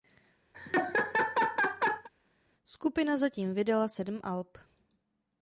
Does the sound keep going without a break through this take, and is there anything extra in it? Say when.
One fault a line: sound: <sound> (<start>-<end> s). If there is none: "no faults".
sound: laugh (0.5-2.1 s)